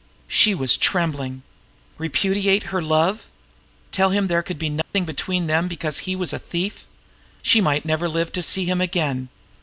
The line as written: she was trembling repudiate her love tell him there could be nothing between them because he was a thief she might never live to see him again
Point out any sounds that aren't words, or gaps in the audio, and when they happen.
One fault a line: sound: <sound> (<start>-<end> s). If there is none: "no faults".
sound: dropout (4.8-4.9 s)